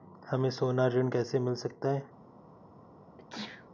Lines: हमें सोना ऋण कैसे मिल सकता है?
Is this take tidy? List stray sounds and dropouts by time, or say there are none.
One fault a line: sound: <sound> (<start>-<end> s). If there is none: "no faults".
sound: sneeze (3.2-3.7 s)